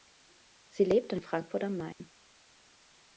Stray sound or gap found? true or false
true